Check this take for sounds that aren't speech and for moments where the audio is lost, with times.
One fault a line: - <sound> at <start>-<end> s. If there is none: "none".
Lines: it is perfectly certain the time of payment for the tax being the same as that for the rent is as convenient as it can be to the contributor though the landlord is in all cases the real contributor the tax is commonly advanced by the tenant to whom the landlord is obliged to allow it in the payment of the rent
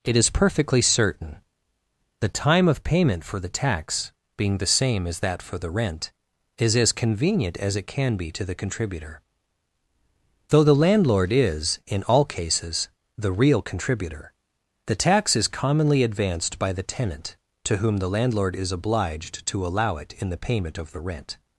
none